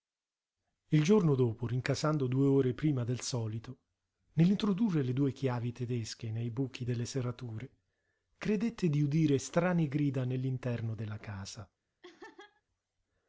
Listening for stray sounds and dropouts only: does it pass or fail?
fail